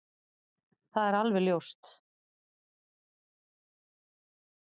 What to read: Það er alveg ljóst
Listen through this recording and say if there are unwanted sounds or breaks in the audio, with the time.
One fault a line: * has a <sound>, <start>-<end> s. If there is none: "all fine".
all fine